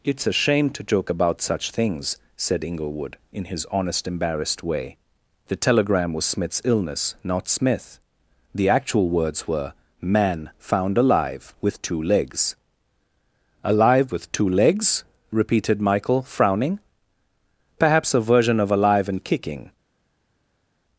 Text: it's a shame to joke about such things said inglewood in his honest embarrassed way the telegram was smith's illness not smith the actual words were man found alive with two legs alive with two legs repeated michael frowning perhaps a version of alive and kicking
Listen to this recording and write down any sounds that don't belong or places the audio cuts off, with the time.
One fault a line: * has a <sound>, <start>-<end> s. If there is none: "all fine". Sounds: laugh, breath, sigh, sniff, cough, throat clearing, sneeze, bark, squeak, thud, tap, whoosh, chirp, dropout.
all fine